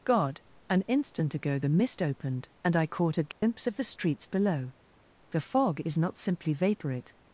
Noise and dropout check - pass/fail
fail